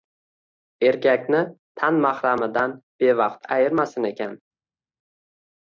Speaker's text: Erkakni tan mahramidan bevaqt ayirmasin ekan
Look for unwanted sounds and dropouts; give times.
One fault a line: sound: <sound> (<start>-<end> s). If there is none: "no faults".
no faults